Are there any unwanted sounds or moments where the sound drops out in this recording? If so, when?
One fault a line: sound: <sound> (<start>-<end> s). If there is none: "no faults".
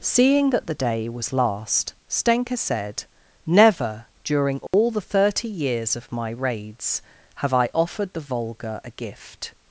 sound: dropout (4.7-4.7 s)